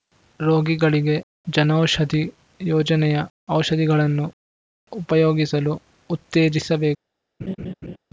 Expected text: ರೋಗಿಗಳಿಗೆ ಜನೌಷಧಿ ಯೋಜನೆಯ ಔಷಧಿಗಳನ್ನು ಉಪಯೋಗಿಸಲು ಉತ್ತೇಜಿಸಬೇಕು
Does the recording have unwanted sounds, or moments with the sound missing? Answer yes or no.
yes